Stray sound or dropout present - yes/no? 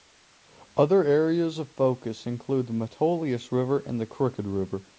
no